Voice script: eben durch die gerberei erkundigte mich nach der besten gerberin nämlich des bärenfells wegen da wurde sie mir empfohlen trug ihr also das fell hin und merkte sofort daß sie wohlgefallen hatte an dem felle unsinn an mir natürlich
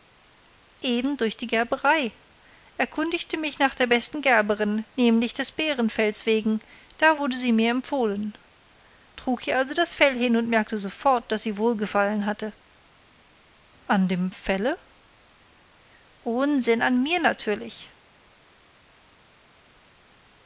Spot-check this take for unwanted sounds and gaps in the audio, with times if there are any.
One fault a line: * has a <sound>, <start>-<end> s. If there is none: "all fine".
all fine